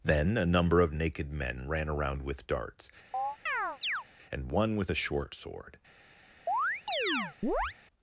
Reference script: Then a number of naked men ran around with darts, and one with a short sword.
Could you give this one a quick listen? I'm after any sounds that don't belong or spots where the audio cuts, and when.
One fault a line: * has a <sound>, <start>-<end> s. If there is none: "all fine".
* has a chirp, 3.1-4.0 s
* has a chirp, 6.5-7.8 s